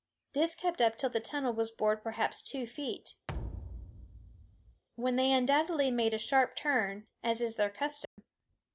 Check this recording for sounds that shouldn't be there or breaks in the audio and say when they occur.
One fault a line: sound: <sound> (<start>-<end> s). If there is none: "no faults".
sound: thud (3.3-4.8 s)
sound: dropout (8.1-8.2 s)